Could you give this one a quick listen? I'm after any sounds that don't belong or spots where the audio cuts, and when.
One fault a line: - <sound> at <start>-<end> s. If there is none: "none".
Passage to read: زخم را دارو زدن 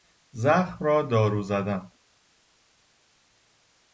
none